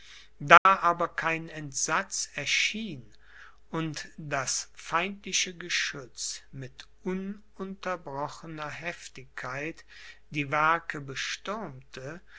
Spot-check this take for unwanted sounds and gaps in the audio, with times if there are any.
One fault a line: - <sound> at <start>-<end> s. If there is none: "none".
- dropout at 0.6-0.7 s